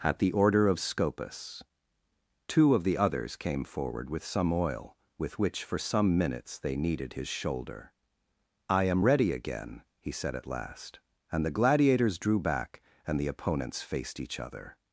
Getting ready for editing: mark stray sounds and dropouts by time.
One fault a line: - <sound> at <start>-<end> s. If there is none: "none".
none